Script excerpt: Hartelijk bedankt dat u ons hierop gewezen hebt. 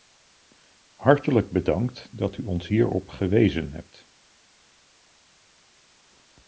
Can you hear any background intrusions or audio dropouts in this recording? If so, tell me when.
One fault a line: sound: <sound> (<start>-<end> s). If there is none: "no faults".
no faults